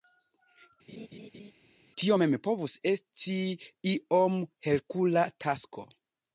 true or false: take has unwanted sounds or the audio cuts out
true